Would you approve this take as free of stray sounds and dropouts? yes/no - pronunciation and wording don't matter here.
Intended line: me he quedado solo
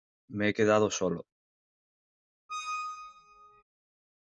no